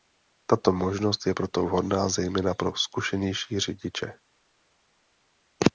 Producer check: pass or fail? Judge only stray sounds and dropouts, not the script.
pass